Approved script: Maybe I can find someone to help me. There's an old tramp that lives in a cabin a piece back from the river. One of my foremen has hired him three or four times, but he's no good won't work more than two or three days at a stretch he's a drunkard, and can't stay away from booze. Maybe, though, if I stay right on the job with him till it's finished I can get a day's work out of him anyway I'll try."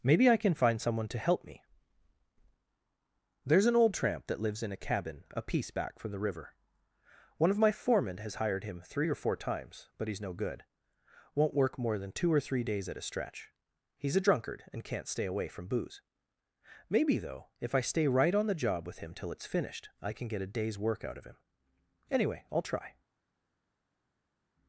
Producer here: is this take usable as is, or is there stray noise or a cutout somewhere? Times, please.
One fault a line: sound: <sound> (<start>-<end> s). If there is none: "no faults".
no faults